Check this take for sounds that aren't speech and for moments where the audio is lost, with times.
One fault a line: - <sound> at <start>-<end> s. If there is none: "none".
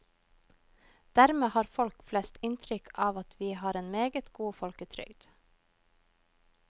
none